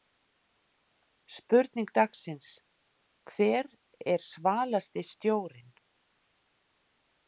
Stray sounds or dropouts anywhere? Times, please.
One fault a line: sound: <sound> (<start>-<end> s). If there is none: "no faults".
no faults